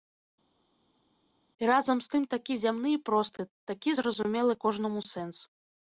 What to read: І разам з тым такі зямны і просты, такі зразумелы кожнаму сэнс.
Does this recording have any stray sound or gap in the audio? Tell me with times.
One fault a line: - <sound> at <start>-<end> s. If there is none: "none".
none